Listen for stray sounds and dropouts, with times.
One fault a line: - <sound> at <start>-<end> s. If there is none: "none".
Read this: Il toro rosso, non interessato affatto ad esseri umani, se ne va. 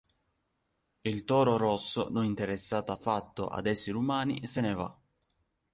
none